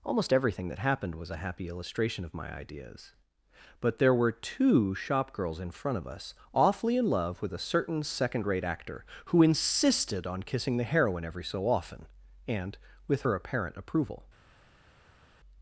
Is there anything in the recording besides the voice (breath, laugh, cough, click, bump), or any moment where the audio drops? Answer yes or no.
no